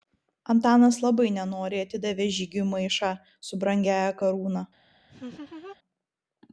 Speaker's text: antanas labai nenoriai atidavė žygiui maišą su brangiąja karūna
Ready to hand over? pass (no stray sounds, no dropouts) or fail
fail